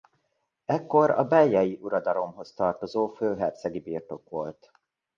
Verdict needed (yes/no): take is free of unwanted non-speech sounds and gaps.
yes